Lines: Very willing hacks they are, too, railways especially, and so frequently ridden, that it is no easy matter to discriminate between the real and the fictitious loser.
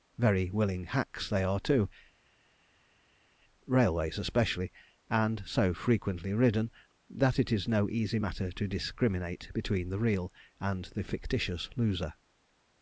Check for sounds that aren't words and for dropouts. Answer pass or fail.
pass